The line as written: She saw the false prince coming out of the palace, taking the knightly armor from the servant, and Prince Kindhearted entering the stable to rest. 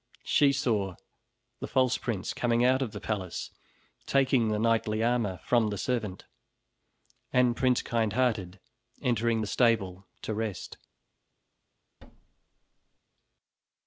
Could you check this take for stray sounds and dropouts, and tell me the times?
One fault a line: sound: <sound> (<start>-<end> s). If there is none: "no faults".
sound: thud (12.0-13.0 s)